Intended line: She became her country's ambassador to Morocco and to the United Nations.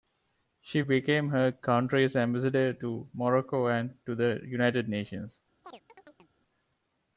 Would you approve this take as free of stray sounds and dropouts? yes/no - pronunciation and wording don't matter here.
no